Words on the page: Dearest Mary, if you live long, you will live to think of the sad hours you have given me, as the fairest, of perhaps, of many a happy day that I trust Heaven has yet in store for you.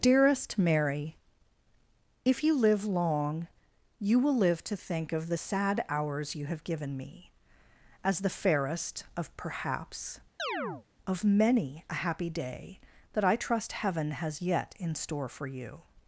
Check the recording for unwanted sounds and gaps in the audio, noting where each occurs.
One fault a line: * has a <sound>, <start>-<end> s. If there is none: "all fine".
* has a chirp, 10.4-10.9 s